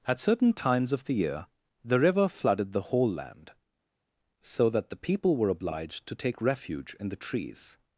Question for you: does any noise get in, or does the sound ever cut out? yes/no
no